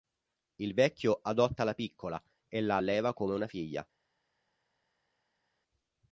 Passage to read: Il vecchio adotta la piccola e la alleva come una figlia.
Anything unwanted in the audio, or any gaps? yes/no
no